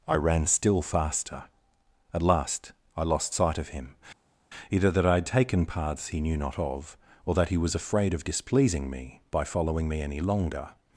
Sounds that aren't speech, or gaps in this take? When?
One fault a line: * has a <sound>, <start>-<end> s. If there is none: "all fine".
all fine